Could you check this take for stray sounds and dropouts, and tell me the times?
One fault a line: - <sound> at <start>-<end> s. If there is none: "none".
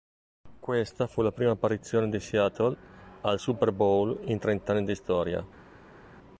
none